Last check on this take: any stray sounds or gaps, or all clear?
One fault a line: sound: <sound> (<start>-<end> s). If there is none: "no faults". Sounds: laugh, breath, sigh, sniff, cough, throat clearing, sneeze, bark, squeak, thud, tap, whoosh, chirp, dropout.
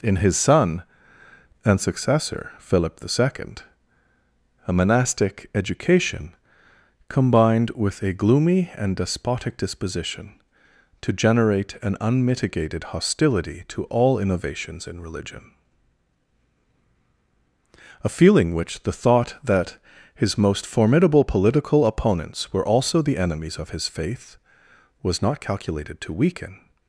no faults